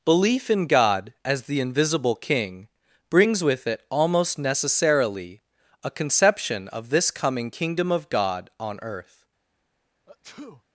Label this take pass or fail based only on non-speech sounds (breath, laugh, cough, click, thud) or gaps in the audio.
fail